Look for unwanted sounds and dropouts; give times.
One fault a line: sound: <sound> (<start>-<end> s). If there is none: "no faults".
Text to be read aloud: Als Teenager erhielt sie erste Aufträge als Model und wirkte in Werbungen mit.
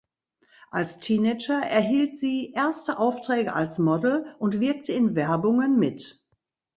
no faults